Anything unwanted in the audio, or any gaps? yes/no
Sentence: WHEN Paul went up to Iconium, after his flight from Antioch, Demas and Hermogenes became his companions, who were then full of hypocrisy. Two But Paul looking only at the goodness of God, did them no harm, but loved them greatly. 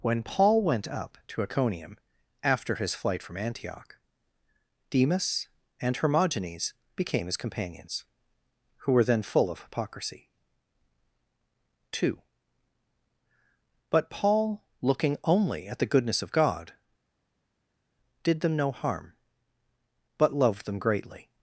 no